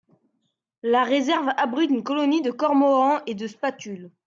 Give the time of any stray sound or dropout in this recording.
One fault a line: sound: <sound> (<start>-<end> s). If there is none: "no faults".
no faults